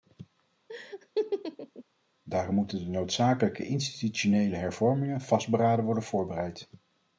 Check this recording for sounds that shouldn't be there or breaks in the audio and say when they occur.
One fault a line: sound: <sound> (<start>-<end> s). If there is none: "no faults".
sound: laugh (0.7-1.8 s)